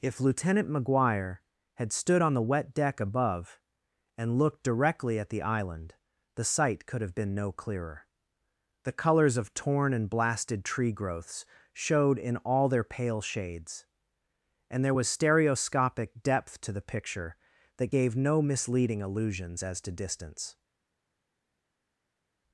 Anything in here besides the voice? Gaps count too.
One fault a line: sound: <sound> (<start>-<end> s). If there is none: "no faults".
no faults